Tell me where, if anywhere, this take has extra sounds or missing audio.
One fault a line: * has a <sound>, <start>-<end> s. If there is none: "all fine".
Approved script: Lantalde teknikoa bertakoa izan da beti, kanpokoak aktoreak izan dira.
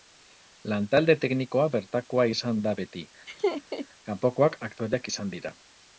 * has a laugh, 3.3-3.9 s